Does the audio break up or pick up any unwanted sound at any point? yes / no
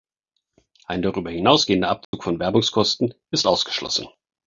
yes